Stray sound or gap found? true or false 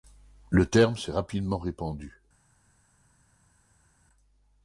false